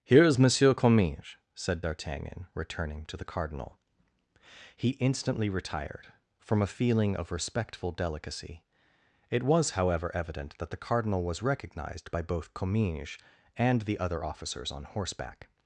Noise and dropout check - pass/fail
pass